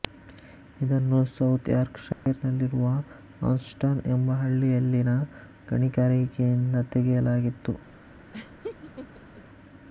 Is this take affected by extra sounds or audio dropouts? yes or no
yes